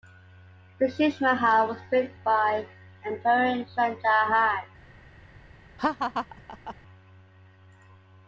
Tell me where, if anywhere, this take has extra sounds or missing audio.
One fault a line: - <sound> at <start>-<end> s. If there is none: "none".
- laugh at 5.8-6.8 s